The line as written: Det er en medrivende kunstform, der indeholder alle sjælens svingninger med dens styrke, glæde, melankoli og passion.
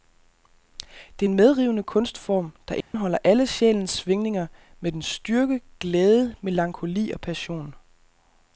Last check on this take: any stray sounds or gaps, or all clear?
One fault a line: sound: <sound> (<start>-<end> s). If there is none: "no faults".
sound: dropout (2.8-2.9 s)